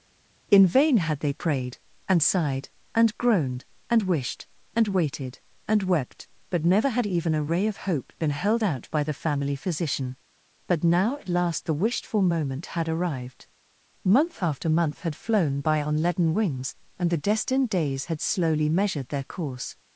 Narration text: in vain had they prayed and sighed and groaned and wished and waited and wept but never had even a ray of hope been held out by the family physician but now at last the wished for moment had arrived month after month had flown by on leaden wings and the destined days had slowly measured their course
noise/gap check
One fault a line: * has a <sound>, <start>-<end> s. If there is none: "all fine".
all fine